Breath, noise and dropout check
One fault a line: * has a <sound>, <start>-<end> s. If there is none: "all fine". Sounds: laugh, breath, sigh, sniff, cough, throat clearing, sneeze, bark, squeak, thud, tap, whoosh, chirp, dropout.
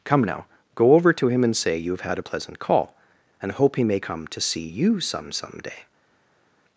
all fine